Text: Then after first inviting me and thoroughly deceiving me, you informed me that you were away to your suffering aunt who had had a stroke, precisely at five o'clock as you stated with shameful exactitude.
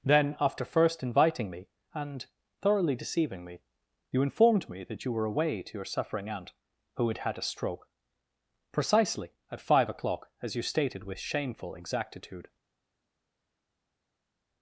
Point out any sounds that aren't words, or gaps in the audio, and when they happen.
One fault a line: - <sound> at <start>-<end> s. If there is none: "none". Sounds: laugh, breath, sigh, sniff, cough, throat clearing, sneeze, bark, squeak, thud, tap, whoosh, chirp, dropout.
none